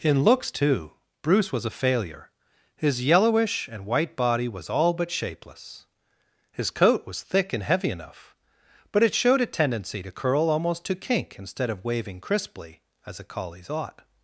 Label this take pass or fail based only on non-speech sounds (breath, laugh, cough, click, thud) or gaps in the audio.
pass